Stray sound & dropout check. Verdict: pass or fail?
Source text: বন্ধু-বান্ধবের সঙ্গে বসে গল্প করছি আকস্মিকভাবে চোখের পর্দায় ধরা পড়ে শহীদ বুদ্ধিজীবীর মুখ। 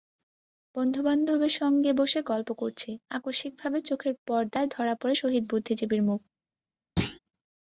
fail